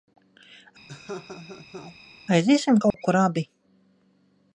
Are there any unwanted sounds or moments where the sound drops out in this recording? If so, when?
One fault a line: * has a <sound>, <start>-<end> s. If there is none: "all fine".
* has a laugh, 0.9-2.0 s
* has a dropout, 2.9-2.9 s